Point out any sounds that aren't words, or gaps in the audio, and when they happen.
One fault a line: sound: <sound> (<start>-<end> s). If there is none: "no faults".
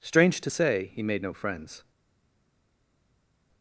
no faults